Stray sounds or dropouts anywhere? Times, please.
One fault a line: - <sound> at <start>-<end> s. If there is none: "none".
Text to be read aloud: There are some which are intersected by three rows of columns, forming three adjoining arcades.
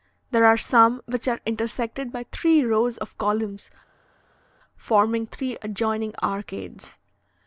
none